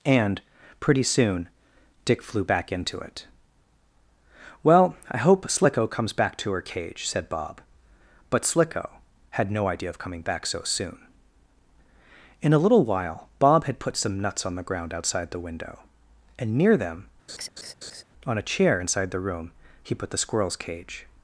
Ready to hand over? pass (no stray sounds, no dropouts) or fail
fail